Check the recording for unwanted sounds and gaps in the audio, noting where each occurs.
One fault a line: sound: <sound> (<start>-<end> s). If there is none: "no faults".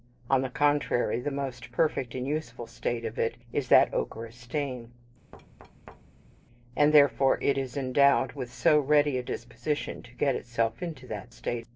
sound: thud (5.3-6.4 s)